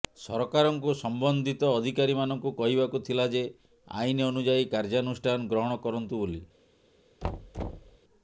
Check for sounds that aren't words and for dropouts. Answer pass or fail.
fail